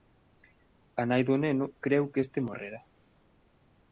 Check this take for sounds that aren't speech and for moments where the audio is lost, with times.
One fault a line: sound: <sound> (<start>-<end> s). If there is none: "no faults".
no faults